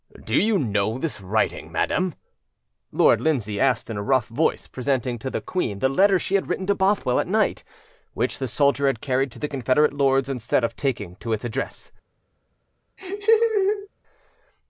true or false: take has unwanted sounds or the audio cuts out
true